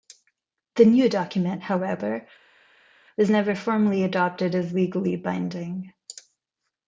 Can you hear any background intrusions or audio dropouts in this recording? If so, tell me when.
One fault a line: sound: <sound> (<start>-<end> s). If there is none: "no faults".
no faults